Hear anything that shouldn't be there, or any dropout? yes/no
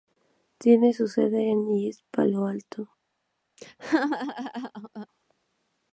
yes